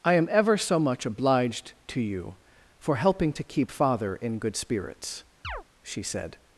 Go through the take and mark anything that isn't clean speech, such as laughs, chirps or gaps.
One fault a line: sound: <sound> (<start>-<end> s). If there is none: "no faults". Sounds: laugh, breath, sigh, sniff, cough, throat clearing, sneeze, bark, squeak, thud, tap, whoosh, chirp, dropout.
sound: chirp (5.4-5.6 s)